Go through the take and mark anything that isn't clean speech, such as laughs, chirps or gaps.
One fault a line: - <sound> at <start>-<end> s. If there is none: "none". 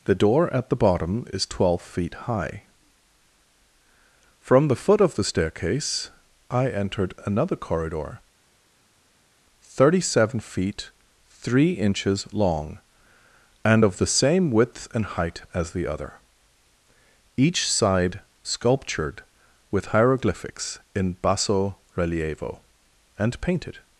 none